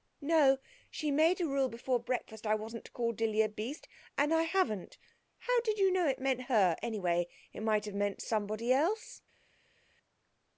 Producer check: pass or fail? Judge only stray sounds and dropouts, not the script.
pass